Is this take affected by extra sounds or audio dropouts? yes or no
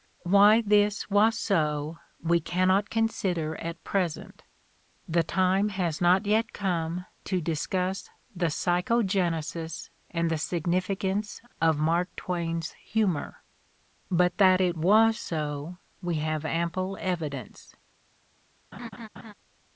yes